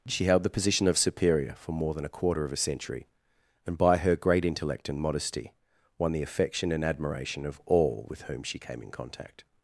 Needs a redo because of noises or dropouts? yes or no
no